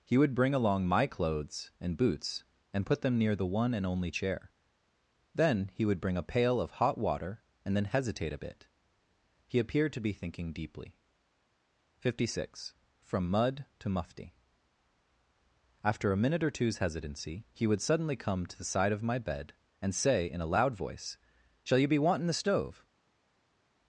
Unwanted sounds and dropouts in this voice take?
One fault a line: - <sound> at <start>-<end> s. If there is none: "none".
none